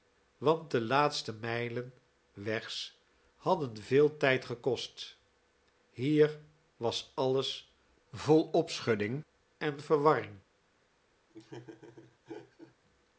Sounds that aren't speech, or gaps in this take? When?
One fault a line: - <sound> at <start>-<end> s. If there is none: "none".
- laugh at 11.3-12.8 s